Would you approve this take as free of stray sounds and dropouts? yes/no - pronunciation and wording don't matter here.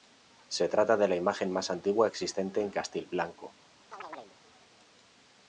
no